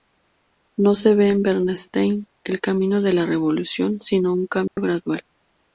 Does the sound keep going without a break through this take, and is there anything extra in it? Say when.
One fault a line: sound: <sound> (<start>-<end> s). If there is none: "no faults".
sound: dropout (4.7-4.8 s)